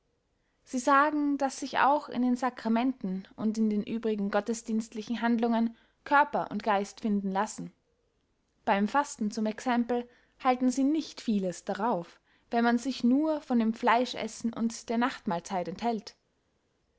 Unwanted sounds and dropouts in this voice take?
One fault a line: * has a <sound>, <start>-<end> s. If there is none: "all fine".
all fine